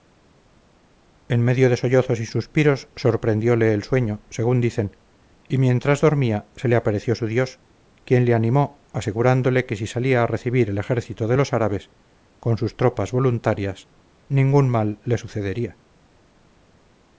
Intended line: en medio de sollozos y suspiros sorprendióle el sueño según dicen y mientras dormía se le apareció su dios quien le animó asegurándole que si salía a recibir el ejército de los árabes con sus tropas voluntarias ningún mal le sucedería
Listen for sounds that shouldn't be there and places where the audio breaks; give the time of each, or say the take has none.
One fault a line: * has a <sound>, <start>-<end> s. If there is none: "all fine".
all fine